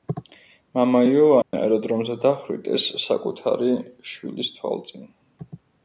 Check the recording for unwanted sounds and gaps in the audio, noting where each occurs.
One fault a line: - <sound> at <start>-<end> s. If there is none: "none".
- dropout at 1.4-1.5 s